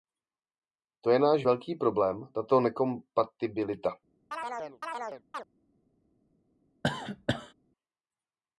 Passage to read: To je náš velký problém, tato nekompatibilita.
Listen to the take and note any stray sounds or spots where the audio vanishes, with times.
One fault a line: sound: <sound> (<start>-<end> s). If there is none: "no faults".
sound: chirp (4.3-5.4 s)
sound: cough (6.8-7.5 s)